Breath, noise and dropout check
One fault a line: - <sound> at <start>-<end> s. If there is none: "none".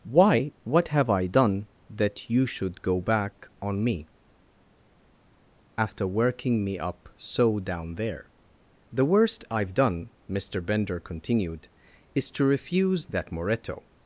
none